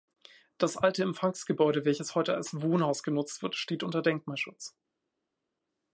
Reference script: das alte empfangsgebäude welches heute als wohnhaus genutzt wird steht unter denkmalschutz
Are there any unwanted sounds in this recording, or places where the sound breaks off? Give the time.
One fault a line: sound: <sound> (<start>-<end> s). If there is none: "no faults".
no faults